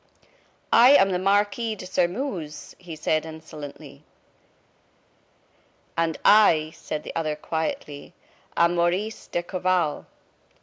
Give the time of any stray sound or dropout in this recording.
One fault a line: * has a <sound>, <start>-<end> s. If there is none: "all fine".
all fine